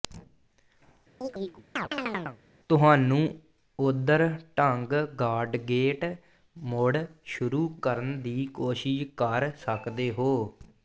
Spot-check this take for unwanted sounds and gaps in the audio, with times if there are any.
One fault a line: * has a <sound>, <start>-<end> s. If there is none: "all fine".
* has a chirp, 1.2-2.4 s